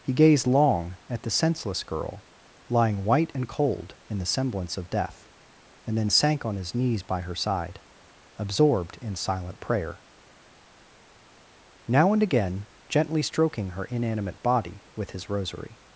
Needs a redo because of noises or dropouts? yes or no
no